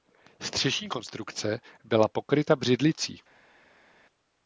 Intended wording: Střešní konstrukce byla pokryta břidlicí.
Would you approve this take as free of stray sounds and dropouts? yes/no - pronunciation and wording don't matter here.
yes